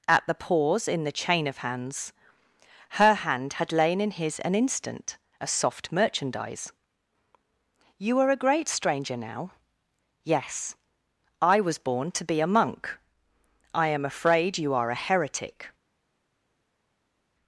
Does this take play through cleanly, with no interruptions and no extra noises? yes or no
yes